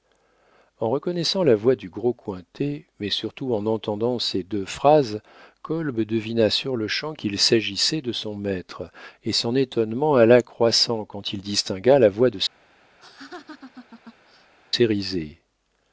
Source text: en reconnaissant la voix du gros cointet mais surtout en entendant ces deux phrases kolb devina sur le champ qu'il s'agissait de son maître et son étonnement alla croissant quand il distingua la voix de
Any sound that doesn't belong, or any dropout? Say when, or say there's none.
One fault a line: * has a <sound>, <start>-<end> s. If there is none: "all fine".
* has a laugh, 13.0-14.5 s